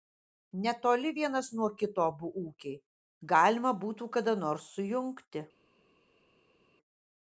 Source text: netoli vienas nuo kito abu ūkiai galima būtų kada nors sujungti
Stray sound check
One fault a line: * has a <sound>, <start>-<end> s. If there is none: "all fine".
all fine